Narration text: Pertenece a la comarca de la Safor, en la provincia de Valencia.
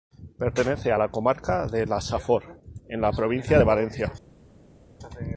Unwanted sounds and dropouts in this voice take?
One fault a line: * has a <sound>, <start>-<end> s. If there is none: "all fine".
all fine